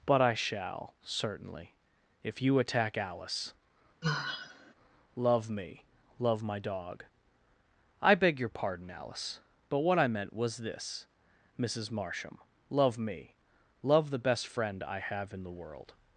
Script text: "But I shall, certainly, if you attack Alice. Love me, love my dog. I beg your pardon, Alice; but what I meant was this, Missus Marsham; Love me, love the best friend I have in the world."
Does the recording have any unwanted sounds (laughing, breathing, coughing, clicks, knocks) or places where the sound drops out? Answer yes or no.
yes